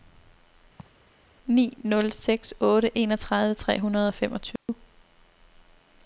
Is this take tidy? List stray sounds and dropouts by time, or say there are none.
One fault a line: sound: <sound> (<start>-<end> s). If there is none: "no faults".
sound: laugh (0.8-1.1 s)
sound: dropout (4.6-4.7 s)